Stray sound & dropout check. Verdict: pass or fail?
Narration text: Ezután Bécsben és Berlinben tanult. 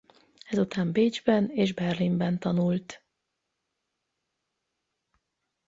pass